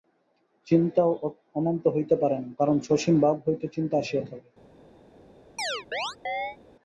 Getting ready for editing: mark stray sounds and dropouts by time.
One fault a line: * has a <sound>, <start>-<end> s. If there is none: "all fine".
* has a chirp, 5.6-6.6 s